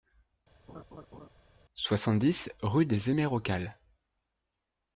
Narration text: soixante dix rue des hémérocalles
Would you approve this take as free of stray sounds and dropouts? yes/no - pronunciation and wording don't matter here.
no